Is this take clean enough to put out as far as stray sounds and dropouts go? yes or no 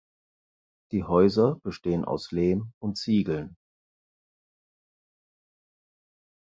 yes